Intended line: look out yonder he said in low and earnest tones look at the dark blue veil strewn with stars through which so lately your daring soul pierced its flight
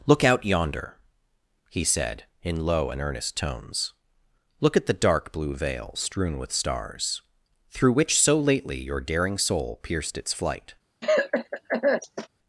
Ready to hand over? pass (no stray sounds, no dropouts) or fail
fail